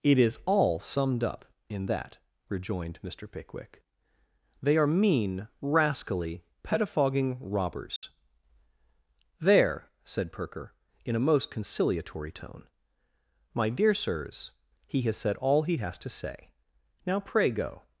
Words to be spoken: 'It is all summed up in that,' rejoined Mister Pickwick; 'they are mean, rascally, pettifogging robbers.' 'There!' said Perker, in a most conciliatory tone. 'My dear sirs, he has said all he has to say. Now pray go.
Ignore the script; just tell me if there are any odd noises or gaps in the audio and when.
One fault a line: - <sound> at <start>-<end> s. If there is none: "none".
- dropout at 8.0-8.0 s